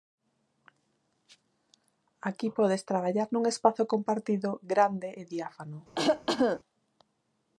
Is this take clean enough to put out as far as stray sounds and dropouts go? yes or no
no